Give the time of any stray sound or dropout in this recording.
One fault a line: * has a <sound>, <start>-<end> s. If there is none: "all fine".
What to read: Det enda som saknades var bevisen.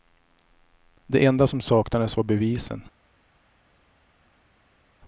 all fine